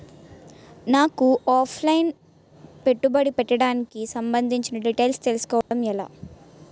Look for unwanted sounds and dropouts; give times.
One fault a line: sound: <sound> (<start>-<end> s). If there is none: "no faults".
sound: dropout (5.6-5.7 s)